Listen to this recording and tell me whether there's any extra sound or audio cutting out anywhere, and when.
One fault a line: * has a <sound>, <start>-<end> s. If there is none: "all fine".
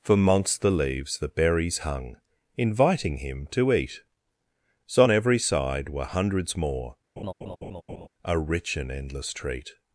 * has a laugh, 7.2-8.1 s